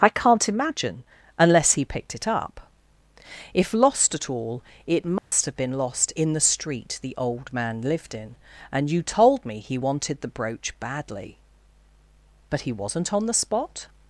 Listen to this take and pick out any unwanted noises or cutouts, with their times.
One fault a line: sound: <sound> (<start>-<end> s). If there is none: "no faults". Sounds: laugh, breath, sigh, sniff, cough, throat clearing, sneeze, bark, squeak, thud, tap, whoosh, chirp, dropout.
sound: dropout (5.2-5.3 s)